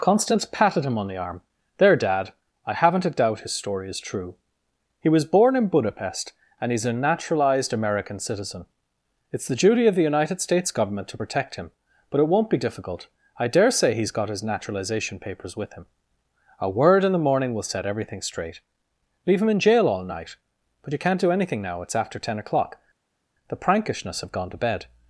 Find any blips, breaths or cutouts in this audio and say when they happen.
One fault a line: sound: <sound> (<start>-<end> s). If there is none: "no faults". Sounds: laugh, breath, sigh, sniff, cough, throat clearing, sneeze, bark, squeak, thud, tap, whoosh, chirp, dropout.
no faults